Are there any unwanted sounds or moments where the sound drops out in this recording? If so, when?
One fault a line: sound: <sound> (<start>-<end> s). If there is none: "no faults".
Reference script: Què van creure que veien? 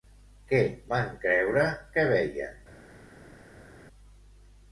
no faults